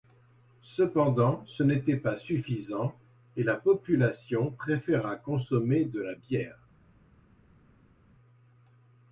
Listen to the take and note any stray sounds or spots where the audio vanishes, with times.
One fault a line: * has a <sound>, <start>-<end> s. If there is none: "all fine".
all fine